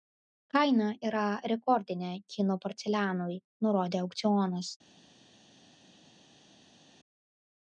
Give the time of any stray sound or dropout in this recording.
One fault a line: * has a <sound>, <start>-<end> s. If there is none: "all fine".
all fine